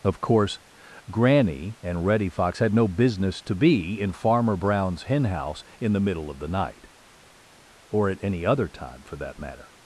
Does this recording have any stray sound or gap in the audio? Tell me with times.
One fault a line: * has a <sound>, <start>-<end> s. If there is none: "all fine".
all fine